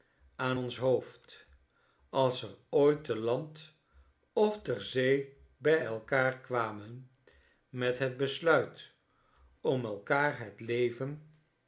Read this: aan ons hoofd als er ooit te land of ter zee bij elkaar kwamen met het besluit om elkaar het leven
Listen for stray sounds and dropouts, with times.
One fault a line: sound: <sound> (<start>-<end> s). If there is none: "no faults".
no faults